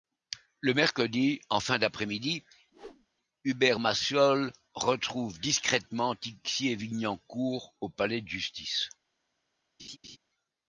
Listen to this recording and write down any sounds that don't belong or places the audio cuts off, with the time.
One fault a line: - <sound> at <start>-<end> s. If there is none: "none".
- whoosh at 2.7-3.1 s
- laugh at 9.8-10.2 s